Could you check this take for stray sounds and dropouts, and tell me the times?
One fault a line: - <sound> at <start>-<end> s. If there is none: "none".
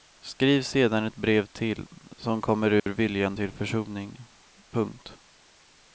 - dropout at 2.8-2.9 s